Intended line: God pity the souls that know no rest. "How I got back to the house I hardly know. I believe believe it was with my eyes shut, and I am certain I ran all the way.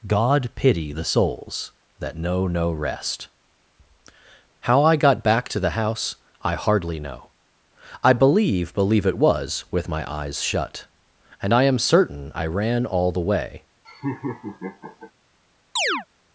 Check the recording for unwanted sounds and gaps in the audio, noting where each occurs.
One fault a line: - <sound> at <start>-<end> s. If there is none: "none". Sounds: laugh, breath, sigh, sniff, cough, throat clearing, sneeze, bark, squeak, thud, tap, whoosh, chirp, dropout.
- laugh at 13.8-15.1 s
- chirp at 15.8-16.1 s